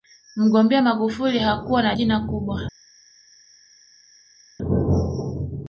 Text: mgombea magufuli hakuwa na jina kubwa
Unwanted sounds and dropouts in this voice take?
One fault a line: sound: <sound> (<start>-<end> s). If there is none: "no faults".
no faults